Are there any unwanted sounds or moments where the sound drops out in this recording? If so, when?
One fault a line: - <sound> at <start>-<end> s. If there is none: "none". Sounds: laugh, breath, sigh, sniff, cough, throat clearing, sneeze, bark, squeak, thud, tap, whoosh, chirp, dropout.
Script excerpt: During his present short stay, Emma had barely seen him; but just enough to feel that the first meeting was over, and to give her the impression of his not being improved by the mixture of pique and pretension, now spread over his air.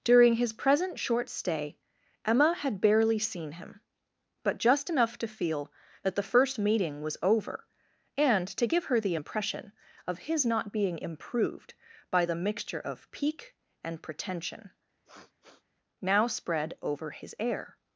- sniff at 15.0-15.6 s